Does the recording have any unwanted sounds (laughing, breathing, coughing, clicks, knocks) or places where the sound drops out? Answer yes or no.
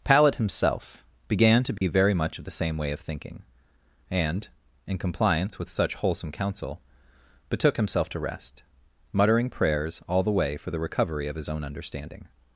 yes